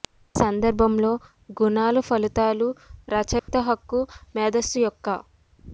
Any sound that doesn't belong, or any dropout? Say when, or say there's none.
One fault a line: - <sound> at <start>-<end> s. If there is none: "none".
- dropout at 3.4-3.5 s